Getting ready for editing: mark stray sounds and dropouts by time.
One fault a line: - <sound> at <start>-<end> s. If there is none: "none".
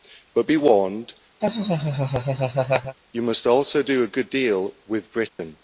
- laugh at 1.4-3.0 s
- dropout at 5.3-5.4 s